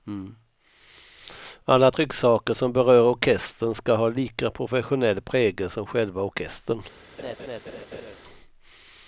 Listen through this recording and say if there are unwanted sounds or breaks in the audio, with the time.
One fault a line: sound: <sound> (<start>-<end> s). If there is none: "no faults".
sound: laugh (7.2-8.2 s)